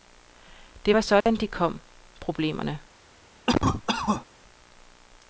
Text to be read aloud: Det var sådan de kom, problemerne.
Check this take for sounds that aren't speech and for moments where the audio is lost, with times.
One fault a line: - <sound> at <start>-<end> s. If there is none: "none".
- dropout at 1.2-1.3 s
- cough at 3.5-4.3 s